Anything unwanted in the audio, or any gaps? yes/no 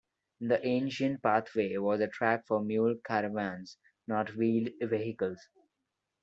no